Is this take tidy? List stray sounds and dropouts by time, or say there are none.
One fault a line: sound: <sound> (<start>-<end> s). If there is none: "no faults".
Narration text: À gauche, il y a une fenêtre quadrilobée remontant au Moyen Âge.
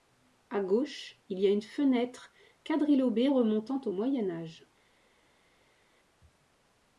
no faults